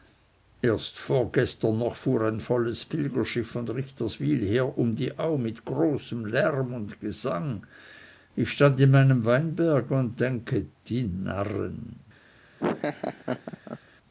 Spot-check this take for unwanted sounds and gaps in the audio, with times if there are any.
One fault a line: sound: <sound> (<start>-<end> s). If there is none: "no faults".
sound: laugh (12.6-13.8 s)